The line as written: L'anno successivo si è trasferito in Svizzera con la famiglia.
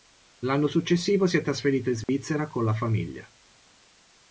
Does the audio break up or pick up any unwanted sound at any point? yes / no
yes